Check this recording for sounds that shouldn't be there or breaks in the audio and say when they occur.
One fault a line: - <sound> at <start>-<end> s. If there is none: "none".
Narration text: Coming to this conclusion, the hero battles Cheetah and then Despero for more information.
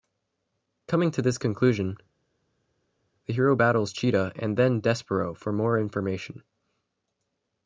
none